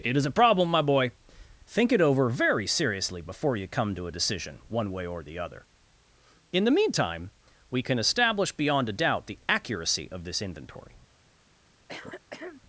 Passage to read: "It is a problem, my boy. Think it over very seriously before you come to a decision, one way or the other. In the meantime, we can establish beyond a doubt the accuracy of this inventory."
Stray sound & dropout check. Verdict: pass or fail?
fail